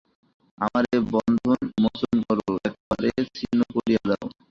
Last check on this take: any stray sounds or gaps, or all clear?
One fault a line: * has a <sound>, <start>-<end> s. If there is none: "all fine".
* has a dropout, 2.8-2.9 s